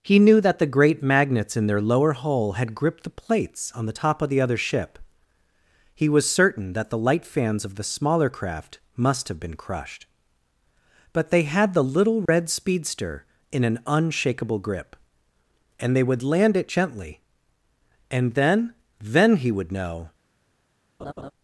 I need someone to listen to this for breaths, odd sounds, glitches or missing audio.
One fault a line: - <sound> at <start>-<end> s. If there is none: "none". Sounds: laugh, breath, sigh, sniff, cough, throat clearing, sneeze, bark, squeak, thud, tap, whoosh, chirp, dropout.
- dropout at 12.3-12.3 s
- laugh at 21.0-21.3 s